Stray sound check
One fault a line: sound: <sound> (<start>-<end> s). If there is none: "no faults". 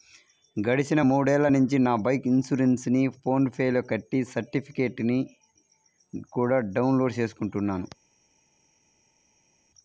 no faults